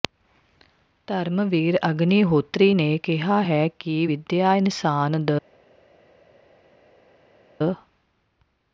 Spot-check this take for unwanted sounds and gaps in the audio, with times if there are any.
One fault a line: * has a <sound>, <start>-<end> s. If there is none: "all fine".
all fine